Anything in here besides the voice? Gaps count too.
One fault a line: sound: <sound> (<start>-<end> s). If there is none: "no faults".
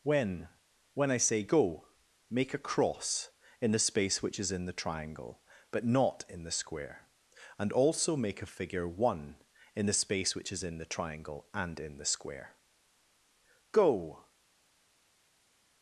no faults